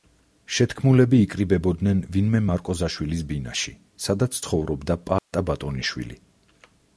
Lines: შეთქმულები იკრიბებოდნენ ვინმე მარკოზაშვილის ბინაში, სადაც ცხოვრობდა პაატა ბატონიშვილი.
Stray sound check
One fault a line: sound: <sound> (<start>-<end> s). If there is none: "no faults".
sound: dropout (5.2-5.3 s)